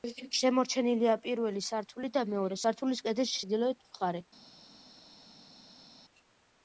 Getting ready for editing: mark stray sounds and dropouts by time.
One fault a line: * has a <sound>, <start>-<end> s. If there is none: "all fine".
all fine